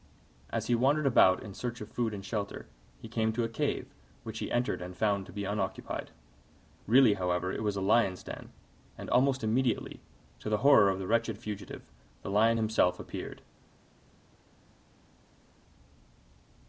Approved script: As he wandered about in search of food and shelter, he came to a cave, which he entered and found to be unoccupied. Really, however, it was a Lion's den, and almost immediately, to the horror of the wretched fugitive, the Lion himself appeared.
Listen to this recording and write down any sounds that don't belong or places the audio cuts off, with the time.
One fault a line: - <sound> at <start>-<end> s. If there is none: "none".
none